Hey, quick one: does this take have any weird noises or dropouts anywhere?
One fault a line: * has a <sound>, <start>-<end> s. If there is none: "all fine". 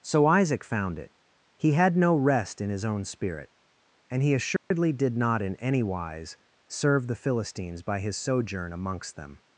* has a dropout, 4.6-4.7 s